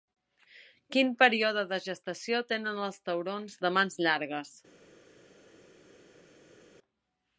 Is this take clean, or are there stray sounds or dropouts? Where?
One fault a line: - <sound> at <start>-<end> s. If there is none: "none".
none